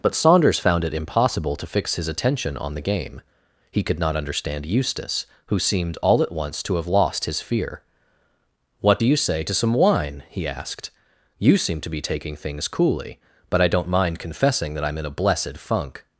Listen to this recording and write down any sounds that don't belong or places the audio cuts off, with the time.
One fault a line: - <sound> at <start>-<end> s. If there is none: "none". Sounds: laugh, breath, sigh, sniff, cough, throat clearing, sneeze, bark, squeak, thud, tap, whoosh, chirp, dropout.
none